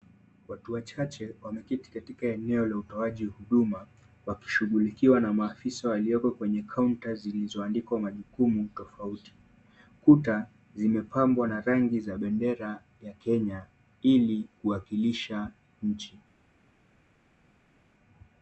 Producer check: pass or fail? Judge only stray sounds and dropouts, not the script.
pass